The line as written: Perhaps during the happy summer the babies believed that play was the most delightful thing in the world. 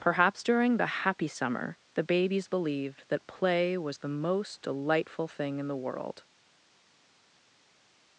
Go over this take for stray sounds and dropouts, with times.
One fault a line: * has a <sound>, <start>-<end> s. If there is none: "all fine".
all fine